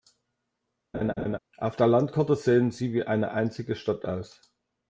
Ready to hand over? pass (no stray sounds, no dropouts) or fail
fail